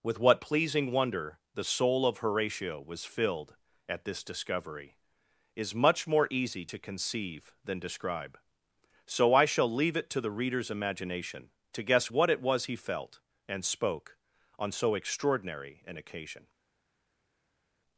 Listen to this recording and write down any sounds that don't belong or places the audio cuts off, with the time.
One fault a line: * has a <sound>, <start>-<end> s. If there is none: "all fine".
all fine